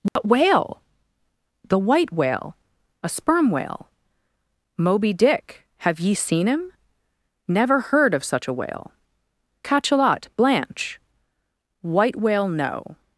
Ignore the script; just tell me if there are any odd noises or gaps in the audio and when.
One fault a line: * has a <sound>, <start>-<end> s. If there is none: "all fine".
* has a dropout, 0.1-0.2 s